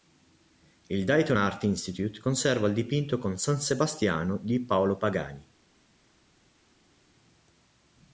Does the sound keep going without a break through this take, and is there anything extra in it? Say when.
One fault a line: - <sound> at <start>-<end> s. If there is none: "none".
none